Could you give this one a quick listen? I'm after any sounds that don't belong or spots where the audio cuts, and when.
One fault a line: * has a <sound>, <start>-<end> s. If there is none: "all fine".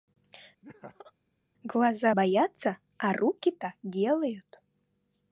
* has a laugh, 0.6-1.1 s